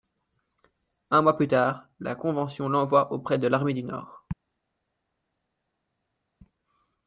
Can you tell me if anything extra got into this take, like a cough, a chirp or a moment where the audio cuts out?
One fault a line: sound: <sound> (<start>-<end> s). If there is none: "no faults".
no faults